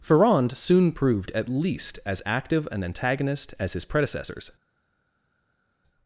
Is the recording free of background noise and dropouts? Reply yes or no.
yes